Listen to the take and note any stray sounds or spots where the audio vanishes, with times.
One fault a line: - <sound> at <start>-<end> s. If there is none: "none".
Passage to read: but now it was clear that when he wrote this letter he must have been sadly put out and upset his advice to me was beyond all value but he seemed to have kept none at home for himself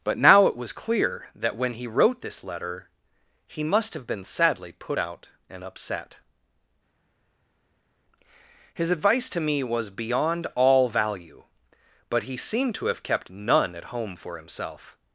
none